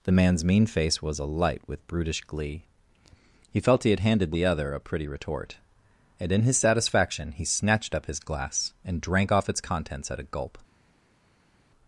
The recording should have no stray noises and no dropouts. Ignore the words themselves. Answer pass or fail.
pass